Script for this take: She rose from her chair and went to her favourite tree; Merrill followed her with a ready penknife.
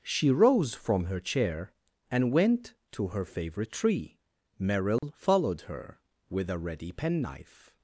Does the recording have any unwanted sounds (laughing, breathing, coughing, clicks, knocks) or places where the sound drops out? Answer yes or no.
yes